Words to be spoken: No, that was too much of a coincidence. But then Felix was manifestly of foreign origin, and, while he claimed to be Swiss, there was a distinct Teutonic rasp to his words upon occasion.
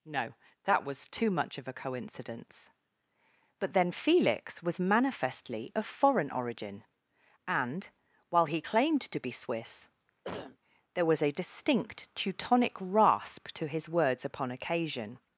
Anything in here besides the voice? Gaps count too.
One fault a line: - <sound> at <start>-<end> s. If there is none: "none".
- cough at 10.2-10.6 s